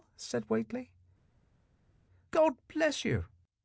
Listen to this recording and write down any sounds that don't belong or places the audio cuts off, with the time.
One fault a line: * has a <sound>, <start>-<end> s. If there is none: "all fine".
all fine